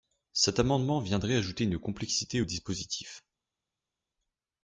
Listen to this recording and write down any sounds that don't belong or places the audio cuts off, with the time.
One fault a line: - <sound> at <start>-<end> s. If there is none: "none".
none